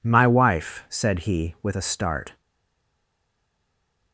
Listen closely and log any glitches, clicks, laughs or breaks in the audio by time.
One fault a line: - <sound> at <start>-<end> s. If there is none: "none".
none